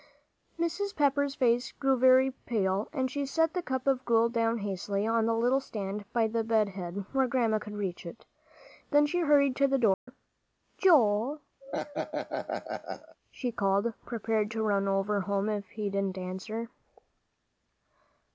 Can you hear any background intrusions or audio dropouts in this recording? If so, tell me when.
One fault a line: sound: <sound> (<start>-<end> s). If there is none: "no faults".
sound: dropout (9.9-10.1 s)
sound: laugh (11.6-13.2 s)